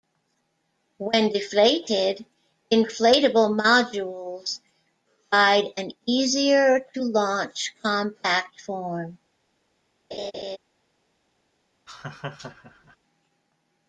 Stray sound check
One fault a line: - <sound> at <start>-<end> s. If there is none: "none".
- laugh at 10.1-10.6 s
- laugh at 11.9-13.0 s